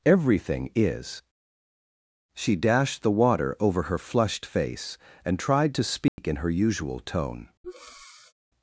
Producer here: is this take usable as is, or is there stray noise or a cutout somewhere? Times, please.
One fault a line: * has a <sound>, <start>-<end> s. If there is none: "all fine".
* has a dropout, 6.1-6.2 s
* has a breath, 7.6-8.3 s